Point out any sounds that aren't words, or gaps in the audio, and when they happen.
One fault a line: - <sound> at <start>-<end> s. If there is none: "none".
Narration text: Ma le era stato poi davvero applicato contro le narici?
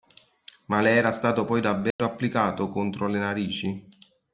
- dropout at 1.9-2.0 s